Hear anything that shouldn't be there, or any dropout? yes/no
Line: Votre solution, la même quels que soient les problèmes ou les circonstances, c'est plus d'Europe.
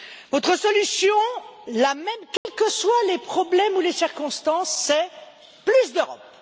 yes